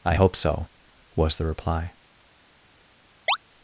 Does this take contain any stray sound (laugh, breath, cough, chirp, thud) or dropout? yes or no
yes